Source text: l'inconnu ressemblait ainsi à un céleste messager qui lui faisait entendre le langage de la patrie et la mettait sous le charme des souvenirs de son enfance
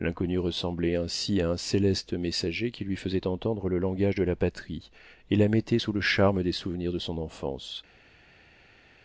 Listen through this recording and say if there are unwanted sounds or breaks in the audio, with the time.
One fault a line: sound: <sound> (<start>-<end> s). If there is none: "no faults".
no faults